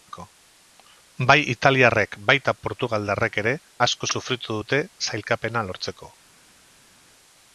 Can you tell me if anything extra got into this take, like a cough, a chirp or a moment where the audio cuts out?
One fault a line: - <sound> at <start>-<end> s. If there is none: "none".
none